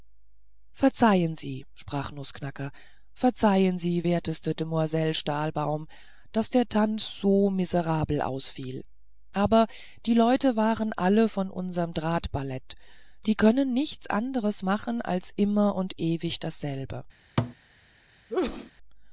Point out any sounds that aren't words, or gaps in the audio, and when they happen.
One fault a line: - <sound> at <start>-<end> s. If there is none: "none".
- thud at 17.4-17.6 s
- sneeze at 18.3-18.7 s